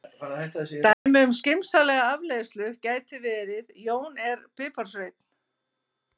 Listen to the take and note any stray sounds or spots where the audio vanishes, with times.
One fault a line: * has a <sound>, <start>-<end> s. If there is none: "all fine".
* has a dropout, 0.9-1.1 s